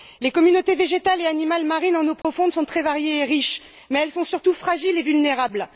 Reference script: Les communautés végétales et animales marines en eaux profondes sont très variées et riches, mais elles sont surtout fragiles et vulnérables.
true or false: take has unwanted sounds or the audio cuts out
true